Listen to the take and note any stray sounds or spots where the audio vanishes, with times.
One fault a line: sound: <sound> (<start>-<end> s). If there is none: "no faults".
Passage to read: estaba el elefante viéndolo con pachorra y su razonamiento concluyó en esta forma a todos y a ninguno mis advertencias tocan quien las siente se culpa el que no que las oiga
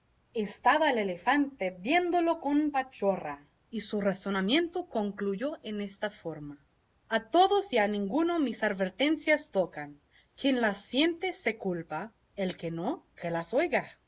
no faults